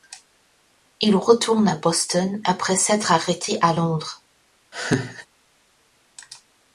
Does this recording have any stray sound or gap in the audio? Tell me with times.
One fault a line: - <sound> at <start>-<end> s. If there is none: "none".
- laugh at 4.7-5.3 s